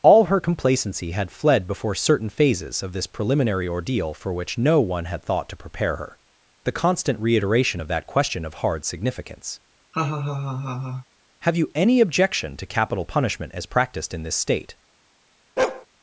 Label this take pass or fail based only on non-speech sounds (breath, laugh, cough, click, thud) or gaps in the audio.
fail